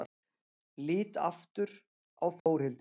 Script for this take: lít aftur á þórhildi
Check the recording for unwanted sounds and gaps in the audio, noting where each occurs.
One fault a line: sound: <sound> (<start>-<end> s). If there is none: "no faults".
sound: dropout (2.4-2.5 s)